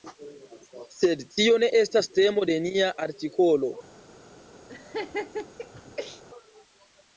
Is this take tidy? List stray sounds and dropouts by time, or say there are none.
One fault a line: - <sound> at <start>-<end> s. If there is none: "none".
- laugh at 4.7-6.2 s